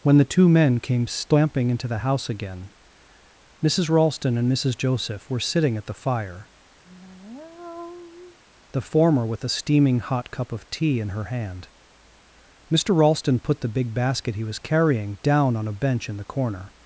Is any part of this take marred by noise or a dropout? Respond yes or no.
yes